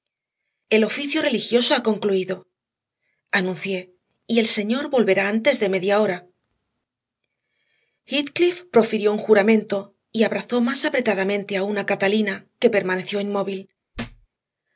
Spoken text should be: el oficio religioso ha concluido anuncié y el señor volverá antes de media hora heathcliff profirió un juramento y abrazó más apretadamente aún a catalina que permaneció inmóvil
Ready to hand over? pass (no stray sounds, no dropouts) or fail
fail